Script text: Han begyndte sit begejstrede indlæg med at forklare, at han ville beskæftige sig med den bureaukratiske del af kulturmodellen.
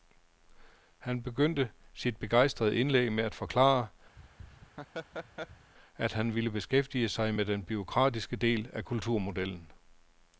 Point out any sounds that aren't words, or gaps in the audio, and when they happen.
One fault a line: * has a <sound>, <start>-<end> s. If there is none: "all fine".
* has a laugh, 4.2-5.7 s